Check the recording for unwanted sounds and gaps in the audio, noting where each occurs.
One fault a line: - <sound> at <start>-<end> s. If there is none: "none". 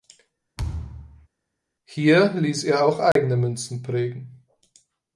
- thud at 0.6-1.3 s
- dropout at 3.1-3.2 s